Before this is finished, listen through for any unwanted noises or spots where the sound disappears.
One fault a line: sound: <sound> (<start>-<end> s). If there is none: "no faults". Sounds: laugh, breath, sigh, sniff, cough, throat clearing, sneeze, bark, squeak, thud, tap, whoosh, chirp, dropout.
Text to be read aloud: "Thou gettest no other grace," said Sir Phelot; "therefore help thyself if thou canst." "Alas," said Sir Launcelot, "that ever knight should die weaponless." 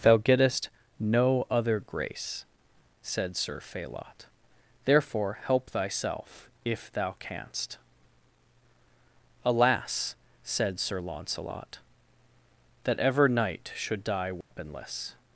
sound: dropout (14.4-14.5 s)